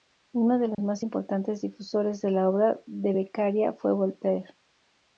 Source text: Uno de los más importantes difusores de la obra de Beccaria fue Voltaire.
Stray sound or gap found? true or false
true